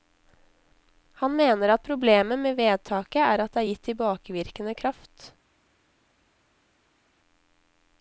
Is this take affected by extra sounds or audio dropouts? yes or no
no